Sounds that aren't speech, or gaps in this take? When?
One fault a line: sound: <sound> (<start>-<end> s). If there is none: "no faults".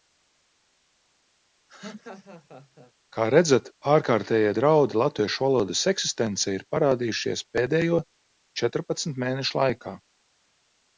sound: laugh (1.7-2.9 s)